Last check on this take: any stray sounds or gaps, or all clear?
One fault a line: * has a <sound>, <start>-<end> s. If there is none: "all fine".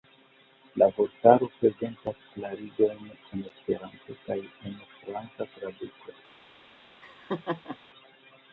* has a laugh, 7.0-7.8 s